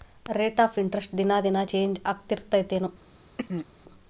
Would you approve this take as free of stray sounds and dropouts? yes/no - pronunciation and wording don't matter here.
no